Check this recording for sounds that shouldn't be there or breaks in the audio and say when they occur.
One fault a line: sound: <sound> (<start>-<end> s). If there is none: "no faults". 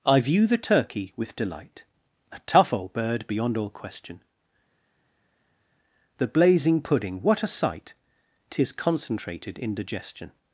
no faults